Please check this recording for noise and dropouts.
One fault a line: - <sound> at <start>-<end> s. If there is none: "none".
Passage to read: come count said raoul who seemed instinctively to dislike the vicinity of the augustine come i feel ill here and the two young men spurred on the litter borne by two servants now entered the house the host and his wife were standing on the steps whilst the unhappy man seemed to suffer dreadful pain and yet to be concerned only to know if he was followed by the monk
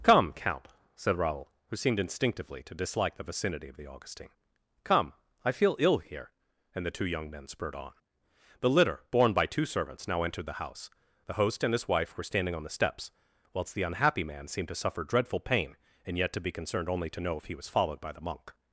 none